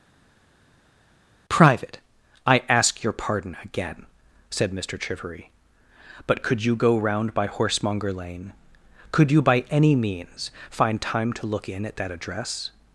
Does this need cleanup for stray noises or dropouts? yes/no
no